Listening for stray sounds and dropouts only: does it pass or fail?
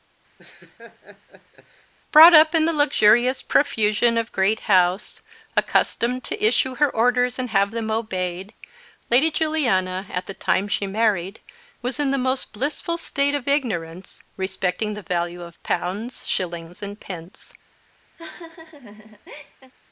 fail